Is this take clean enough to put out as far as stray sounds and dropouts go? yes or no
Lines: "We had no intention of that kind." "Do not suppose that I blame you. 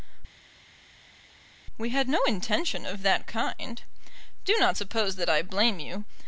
yes